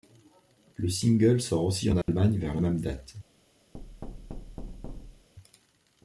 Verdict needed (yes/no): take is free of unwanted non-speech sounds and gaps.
no